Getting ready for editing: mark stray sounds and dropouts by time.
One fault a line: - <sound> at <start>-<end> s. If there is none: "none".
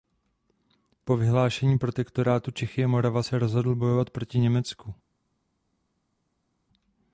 none